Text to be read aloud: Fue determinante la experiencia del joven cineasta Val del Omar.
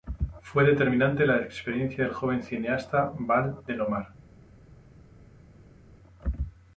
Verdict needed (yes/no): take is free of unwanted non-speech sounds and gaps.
yes